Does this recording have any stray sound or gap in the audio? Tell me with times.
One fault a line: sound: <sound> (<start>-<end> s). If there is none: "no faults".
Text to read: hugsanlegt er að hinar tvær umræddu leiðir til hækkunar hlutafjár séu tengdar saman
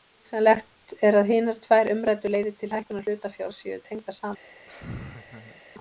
sound: laugh (4.7-5.6 s)